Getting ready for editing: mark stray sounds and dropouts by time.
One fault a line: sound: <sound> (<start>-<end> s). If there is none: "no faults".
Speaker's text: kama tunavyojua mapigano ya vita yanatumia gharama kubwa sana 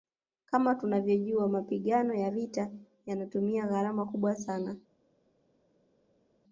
no faults